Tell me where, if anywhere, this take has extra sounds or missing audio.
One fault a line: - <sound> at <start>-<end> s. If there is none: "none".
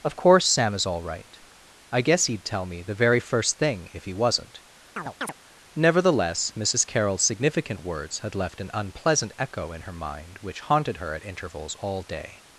- chirp at 5.0-5.3 s